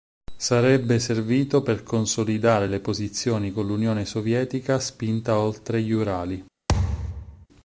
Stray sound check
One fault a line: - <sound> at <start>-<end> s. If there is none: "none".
- thud at 6.7-7.5 s